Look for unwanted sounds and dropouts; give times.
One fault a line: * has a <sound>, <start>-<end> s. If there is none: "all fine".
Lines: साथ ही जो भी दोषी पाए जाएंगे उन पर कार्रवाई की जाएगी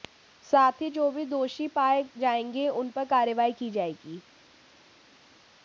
all fine